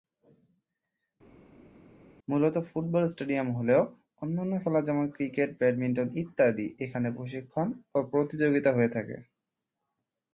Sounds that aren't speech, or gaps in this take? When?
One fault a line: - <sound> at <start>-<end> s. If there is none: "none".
none